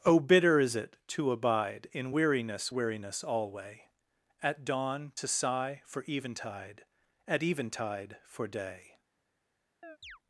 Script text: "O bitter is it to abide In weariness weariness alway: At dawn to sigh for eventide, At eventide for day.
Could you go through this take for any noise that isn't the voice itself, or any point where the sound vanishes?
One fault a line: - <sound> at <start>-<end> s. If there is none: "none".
- chirp at 9.8-10.2 s